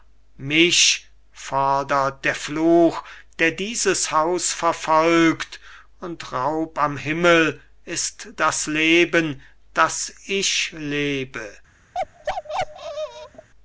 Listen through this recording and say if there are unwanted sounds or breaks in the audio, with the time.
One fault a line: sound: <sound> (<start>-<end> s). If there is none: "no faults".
sound: bark (11.9-13.5 s)